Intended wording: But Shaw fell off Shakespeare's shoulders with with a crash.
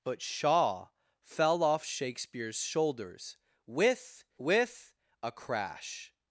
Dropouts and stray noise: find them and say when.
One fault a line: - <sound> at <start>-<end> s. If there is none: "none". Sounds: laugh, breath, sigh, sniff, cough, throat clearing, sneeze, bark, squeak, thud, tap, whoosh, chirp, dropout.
none